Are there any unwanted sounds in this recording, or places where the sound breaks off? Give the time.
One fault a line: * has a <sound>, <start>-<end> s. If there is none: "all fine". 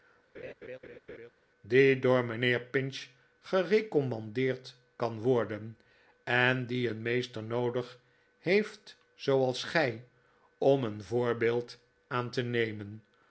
* has a laugh, 0.3-1.3 s